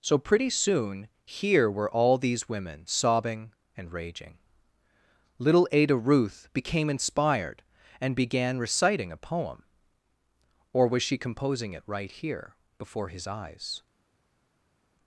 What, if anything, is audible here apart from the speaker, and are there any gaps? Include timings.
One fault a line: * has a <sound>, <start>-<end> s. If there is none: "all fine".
all fine